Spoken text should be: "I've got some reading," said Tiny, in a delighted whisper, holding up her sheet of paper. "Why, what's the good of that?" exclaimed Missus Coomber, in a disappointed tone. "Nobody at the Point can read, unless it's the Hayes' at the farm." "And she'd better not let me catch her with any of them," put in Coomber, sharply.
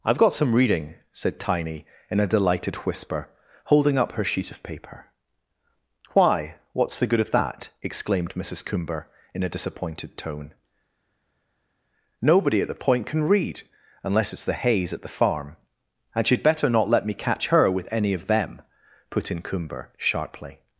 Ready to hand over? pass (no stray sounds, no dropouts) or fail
pass